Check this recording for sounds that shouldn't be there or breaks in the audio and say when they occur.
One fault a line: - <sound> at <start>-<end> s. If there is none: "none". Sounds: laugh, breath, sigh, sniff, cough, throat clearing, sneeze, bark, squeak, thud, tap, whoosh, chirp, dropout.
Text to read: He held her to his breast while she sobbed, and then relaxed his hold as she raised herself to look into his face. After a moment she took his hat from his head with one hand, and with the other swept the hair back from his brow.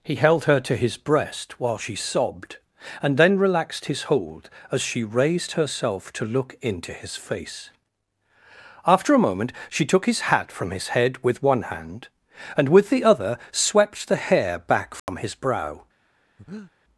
- dropout at 15.0-15.1 s
- breath at 16.4-16.7 s